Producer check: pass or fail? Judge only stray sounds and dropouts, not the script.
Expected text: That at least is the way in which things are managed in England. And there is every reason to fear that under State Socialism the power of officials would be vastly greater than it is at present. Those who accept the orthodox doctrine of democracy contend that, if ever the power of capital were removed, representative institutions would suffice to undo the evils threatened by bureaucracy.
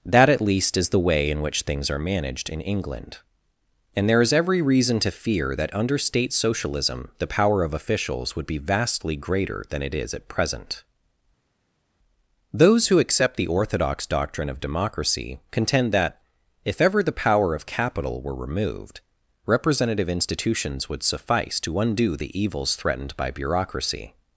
pass